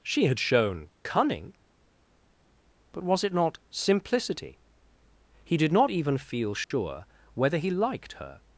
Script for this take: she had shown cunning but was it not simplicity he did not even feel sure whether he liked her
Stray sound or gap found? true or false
true